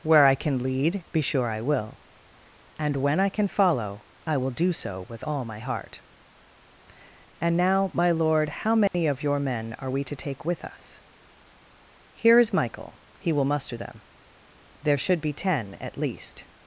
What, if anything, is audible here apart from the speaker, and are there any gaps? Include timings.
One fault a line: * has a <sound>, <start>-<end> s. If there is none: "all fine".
* has a dropout, 8.9-8.9 s